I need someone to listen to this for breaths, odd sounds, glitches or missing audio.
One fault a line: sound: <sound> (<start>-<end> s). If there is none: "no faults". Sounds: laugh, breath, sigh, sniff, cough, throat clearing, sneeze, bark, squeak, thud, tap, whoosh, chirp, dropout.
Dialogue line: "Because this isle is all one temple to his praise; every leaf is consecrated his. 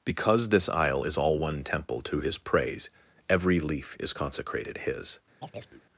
sound: chirp (5.4-5.8 s)